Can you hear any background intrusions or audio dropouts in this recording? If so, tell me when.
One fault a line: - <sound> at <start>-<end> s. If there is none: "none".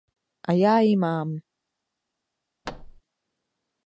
- thud at 2.6-3.0 s